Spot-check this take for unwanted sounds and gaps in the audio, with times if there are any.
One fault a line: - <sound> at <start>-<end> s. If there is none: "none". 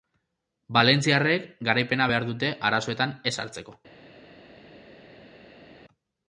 none